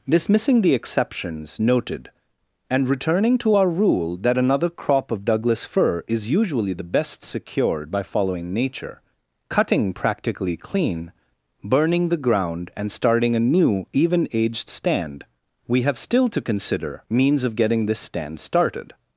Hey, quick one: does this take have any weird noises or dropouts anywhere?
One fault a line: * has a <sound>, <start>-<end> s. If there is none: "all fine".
all fine